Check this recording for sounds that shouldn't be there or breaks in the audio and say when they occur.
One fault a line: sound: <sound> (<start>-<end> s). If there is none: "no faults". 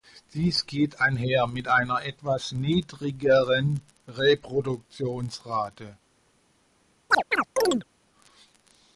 sound: chirp (7.1-7.8 s)